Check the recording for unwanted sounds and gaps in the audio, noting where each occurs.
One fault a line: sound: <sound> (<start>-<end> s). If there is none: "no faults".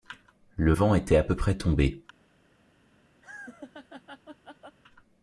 sound: laugh (3.2-4.8 s)